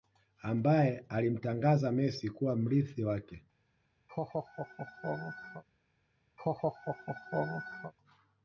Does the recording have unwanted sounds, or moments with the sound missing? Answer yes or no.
yes